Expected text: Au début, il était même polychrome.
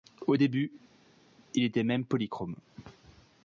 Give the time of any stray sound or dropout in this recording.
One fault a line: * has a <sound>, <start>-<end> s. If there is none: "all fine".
all fine